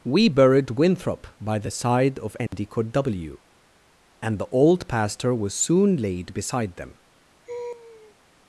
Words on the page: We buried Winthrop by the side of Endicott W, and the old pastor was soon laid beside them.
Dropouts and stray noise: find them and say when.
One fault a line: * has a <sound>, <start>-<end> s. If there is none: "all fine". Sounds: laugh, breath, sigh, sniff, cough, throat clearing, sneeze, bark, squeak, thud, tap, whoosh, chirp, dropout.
* has a dropout, 2.5-2.5 s
* has a laugh, 7.5-8.2 s